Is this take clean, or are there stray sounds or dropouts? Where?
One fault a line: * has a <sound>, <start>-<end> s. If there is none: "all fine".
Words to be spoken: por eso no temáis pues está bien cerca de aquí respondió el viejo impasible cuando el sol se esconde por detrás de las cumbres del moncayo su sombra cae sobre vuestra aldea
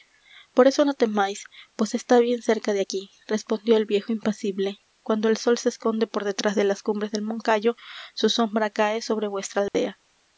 * has a dropout, 9.7-9.7 s